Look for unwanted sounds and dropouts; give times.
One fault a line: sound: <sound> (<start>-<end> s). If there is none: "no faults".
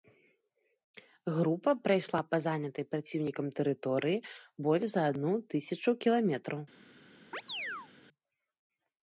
sound: chirp (7.3-7.9 s)